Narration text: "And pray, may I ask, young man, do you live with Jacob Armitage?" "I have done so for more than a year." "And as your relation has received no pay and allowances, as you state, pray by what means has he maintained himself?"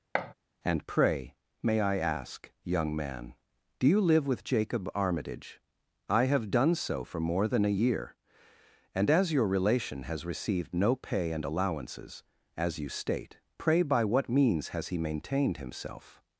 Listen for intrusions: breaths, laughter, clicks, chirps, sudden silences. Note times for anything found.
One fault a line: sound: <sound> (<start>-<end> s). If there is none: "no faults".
sound: thud (0.1-0.3 s)